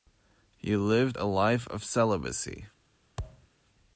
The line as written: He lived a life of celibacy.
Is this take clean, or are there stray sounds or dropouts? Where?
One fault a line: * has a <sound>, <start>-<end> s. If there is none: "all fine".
* has a thud, 3.2-3.5 s